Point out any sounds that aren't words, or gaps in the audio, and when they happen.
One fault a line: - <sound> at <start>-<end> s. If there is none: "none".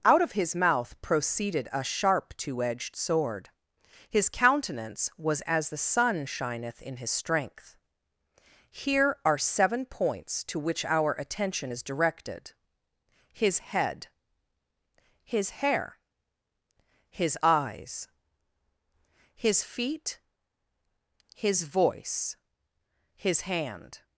none